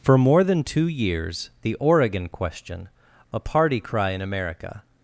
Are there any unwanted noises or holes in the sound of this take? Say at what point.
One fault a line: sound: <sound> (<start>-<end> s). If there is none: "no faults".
no faults